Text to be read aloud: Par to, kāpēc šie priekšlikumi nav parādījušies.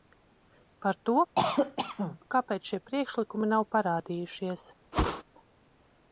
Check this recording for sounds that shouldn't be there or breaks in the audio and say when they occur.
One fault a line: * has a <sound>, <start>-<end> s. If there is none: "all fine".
* has a cough, 1.4-2.2 s
* has a whoosh, 4.9-5.2 s